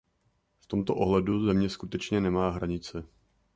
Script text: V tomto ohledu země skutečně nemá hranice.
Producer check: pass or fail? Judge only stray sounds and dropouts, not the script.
pass